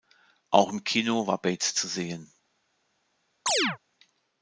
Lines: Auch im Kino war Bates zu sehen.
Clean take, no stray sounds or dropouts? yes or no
no